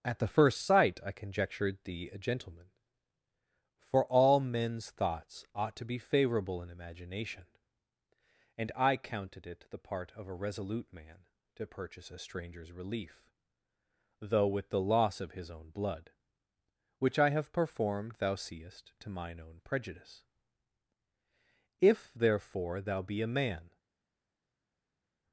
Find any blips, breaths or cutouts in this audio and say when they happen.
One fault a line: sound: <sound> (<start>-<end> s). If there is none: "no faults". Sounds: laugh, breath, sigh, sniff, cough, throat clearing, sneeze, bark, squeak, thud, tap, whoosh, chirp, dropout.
no faults